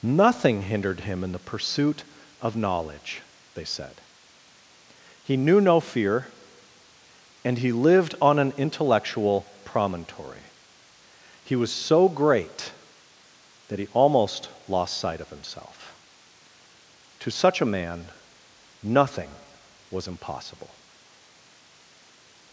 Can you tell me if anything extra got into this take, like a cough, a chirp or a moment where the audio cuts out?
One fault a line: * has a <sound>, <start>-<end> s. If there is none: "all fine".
all fine